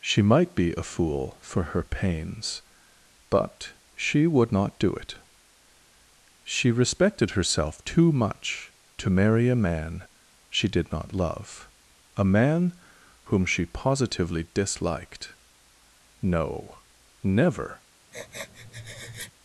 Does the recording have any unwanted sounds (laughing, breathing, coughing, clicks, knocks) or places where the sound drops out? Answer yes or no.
yes